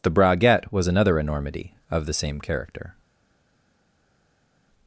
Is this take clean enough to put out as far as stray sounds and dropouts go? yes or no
yes